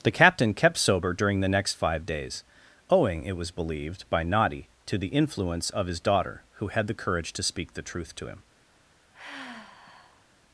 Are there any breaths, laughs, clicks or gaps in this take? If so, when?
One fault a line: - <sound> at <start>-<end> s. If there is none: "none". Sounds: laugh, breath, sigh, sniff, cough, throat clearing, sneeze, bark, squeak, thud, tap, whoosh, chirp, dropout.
- sigh at 9.1-10.3 s